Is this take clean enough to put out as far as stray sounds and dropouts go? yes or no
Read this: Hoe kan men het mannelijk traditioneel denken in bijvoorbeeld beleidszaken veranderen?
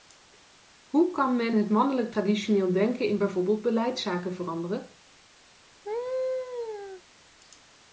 no